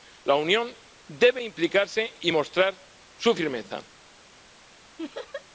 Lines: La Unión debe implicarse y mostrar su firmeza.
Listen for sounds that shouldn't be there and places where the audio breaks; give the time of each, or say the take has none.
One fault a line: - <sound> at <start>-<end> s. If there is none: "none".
- laugh at 5.0-5.4 s